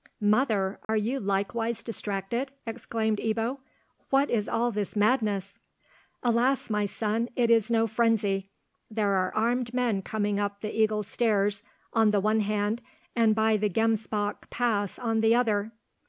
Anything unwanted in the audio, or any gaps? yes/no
yes